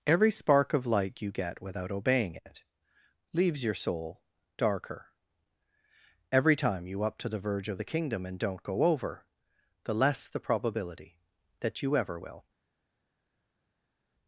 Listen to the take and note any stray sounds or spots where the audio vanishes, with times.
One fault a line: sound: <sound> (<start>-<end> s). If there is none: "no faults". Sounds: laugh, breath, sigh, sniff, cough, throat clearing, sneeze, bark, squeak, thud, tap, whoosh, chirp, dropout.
no faults